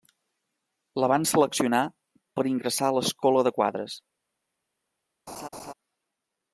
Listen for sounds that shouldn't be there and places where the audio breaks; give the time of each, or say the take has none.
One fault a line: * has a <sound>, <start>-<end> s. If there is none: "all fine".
* has a laugh, 5.3-5.7 s